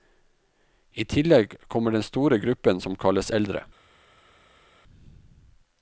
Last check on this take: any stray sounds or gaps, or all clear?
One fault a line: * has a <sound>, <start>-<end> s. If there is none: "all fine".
all fine